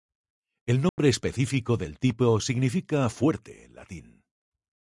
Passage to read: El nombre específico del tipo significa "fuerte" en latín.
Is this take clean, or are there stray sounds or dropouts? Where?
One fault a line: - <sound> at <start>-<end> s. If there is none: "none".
- dropout at 0.9-1.0 s